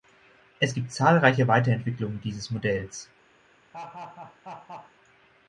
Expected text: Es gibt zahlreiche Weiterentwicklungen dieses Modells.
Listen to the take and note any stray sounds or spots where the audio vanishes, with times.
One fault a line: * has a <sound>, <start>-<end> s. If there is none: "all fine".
* has a laugh, 3.7-4.9 s